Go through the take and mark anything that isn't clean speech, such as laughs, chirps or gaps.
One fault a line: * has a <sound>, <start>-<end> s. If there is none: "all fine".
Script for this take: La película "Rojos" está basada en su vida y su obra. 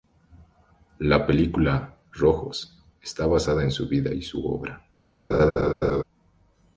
* has a laugh, 5.3-6.0 s